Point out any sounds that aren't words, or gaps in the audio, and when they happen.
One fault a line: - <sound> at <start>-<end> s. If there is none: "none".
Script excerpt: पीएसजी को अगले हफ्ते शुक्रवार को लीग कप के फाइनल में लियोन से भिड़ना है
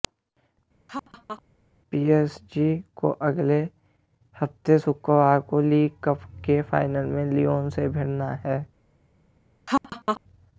- laugh at 0.9-1.4 s
- laugh at 9.7-10.2 s